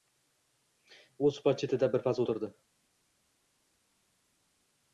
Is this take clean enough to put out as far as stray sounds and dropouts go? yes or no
yes